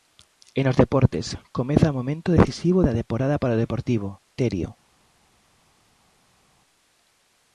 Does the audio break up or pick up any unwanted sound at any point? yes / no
no